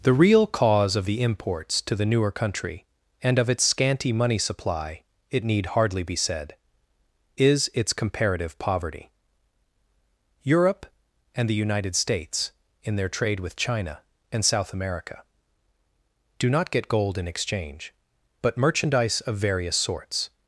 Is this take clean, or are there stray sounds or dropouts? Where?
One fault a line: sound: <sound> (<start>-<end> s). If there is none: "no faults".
no faults